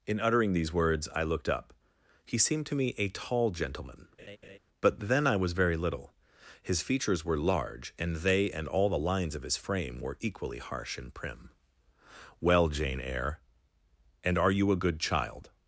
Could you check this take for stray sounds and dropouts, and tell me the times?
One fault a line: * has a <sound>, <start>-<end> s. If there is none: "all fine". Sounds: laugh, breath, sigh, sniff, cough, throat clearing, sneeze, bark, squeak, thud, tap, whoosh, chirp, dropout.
* has a laugh, 4.2-4.6 s